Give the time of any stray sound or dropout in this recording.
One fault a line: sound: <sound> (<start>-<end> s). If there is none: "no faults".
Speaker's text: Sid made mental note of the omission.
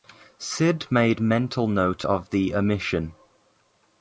no faults